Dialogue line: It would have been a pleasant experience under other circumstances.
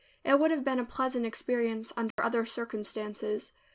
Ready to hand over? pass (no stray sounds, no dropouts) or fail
fail